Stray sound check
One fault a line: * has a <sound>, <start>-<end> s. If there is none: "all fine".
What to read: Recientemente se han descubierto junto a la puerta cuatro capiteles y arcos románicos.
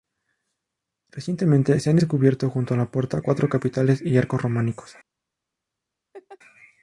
* has a laugh, 6.1-6.4 s